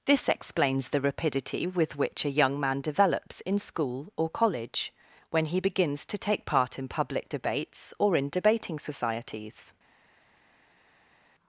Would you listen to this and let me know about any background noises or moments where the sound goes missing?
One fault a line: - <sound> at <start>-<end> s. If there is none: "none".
none